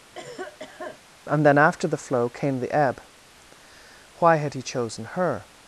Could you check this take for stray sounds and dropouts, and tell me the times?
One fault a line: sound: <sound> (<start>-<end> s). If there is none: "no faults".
sound: cough (0.1-1.0 s)